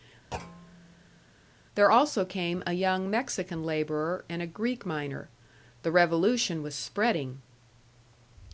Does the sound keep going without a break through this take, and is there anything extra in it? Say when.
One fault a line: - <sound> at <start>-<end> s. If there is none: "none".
- thud at 0.3-1.3 s